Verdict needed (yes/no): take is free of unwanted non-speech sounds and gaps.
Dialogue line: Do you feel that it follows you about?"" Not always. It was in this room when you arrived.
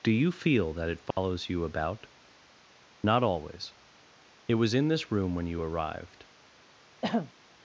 no